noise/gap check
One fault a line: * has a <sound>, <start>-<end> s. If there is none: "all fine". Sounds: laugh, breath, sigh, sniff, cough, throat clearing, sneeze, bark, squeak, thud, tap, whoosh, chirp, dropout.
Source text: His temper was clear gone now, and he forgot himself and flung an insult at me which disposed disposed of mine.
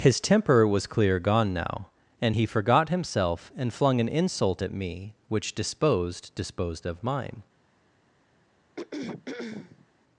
* has a throat clearing, 8.8-9.9 s